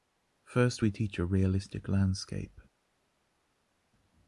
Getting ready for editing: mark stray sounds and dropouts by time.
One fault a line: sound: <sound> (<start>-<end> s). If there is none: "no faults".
no faults